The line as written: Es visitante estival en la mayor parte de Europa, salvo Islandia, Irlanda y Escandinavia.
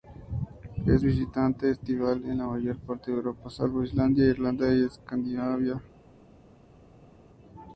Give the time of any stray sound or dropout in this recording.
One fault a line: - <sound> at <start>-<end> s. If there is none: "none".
none